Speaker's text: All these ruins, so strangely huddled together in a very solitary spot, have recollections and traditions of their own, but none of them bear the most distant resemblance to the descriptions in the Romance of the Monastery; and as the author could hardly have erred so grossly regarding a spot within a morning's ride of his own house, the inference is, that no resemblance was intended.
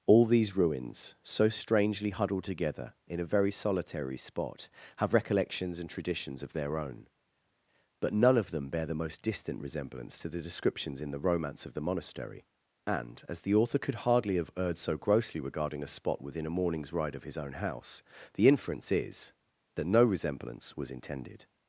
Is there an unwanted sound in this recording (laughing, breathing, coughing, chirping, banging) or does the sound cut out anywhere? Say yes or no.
no